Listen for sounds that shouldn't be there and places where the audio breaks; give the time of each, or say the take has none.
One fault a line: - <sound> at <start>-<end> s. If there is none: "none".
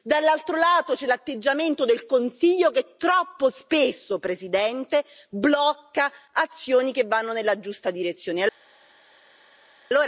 none